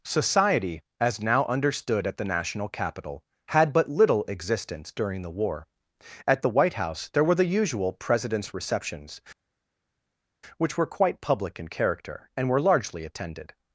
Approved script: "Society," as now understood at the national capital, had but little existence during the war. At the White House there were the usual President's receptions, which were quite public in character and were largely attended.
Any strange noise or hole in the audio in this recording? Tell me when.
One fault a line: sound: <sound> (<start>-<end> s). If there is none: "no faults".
no faults